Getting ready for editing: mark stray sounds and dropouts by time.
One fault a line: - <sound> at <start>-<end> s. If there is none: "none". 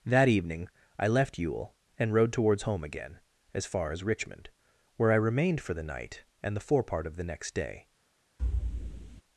- thud at 8.4-9.2 s